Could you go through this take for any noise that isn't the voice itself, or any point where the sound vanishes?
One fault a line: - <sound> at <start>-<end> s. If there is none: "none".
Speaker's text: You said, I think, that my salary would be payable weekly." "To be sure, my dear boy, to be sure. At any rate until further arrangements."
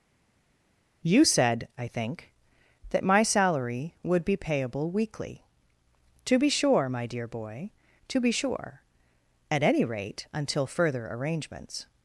none